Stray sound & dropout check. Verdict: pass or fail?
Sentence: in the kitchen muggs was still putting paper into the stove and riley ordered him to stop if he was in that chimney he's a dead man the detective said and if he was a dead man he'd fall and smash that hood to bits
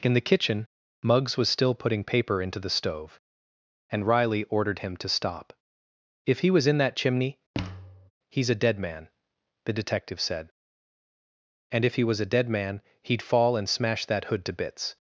fail